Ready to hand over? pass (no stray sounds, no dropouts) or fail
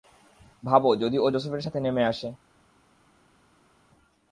pass